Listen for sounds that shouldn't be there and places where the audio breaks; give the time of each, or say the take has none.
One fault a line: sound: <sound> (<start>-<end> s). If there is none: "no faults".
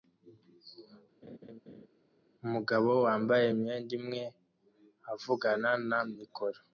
sound: laugh (1.2-1.9 s)